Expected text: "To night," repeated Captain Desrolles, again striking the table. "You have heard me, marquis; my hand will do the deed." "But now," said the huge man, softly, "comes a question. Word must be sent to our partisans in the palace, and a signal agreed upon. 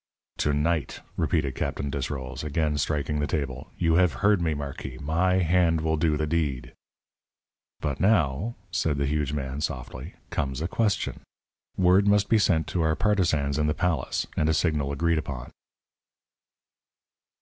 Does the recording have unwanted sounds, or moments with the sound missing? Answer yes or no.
no